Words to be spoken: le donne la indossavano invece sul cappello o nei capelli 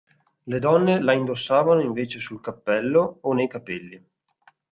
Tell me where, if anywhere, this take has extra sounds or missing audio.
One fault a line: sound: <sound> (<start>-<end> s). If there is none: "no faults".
no faults